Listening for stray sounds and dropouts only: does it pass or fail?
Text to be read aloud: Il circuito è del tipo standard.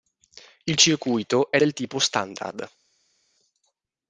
pass